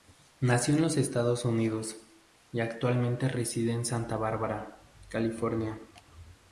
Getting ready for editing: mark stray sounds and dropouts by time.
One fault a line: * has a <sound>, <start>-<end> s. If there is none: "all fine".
all fine